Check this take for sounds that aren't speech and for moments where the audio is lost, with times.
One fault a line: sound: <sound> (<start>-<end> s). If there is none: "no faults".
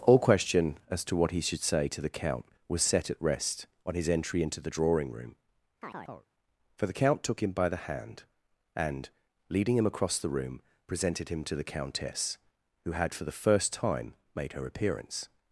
sound: chirp (5.8-6.3 s)